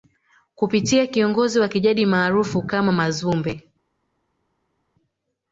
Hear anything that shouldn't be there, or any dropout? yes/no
no